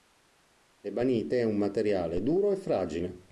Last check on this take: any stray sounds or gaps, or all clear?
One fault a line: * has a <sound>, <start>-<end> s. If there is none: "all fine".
all fine